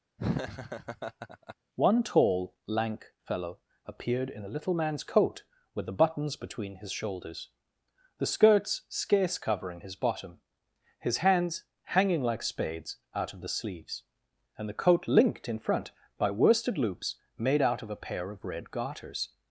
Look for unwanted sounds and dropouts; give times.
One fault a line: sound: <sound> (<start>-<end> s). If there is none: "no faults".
sound: laugh (0.2-1.6 s)